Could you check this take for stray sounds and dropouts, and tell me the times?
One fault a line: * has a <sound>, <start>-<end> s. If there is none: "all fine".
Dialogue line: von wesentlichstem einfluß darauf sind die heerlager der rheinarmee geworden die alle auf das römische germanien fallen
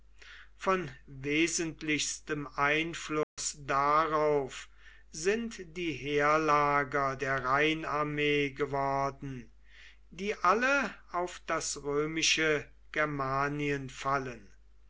* has a dropout, 3.2-3.4 s